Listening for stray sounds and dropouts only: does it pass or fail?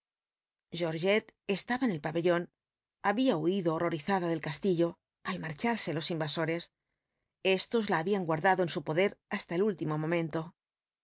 pass